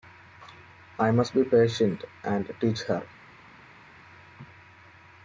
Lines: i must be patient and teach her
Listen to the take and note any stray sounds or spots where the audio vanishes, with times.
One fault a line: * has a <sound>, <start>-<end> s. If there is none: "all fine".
all fine